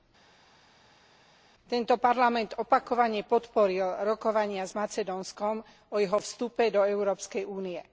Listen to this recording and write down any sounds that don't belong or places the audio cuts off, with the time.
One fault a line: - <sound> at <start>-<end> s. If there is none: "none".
none